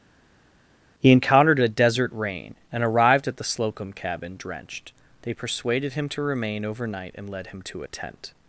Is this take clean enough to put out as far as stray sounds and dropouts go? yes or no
yes